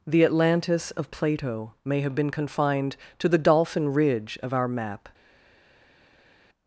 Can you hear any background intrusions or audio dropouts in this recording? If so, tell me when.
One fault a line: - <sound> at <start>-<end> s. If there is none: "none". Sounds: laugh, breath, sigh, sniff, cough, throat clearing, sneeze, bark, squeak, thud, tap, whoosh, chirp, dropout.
none